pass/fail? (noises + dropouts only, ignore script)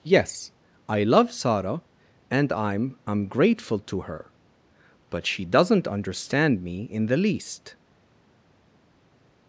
pass